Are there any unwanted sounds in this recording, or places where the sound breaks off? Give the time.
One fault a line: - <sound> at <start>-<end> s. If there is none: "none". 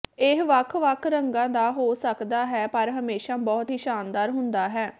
none